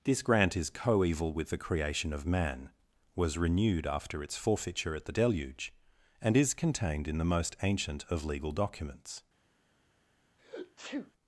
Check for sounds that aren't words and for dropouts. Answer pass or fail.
fail